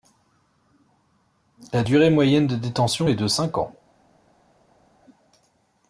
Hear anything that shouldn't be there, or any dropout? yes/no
no